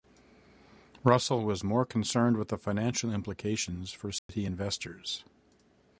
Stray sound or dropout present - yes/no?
yes